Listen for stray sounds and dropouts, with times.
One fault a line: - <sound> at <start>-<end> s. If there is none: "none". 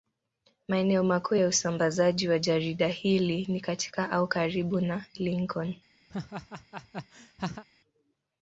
- laugh at 6.1-7.6 s